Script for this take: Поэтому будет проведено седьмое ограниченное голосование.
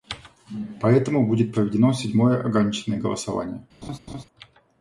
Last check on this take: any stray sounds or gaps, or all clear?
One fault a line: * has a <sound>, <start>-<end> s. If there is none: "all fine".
* has a laugh, 3.8-4.2 s